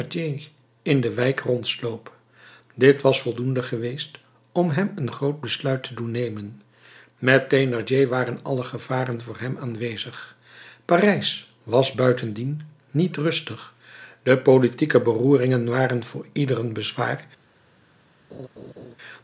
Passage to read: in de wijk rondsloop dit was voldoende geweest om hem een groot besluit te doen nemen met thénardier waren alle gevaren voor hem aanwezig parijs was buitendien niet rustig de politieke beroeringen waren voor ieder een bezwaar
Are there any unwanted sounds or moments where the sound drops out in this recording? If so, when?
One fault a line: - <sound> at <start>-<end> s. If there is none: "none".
- laugh at 18.3-19.0 s